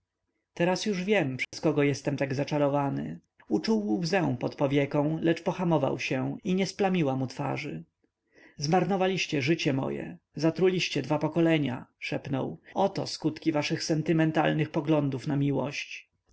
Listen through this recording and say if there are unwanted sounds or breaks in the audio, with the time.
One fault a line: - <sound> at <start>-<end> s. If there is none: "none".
- dropout at 1.4-1.5 s